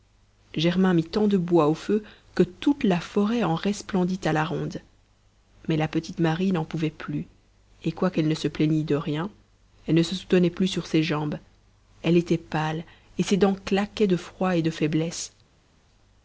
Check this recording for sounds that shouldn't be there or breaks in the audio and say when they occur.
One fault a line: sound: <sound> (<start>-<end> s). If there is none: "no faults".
no faults